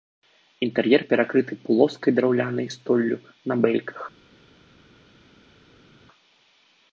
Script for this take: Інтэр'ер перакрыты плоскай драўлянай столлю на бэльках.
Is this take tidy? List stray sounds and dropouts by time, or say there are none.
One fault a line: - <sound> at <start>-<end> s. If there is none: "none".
none